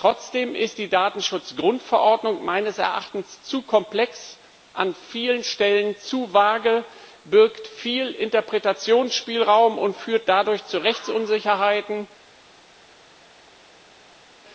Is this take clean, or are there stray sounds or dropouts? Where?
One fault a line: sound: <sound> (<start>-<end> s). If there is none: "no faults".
no faults